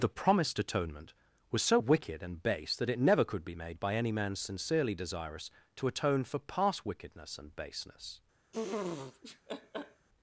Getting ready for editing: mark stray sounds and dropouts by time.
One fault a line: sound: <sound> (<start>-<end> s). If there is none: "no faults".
sound: laugh (8.5-10.1 s)